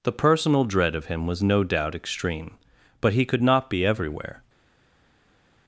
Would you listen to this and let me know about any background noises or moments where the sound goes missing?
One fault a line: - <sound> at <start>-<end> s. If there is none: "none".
none